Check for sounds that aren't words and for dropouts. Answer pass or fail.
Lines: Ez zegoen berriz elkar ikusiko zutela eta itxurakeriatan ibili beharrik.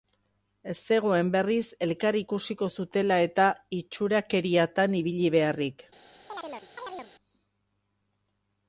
fail